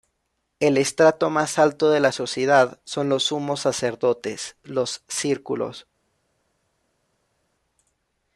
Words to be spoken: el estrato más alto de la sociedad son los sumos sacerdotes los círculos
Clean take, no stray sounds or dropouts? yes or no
yes